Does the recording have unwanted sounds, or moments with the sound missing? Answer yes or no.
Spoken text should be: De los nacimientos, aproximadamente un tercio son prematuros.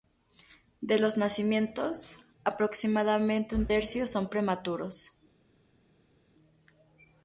no